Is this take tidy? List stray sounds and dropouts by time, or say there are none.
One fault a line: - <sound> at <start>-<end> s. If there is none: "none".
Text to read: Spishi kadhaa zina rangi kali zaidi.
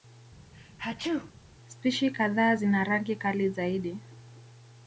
- sneeze at 0.5-1.3 s